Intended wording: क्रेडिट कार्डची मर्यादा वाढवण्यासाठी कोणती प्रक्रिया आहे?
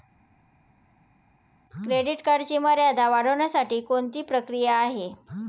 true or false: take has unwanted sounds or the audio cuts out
false